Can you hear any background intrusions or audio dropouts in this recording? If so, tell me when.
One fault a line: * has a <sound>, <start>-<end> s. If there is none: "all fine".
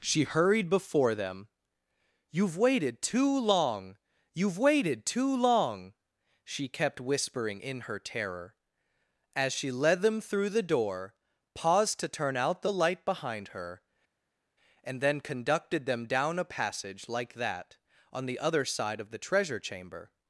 all fine